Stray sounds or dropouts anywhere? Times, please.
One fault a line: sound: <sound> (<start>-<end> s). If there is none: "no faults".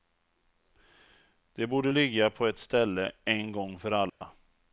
sound: dropout (4.1-4.2 s)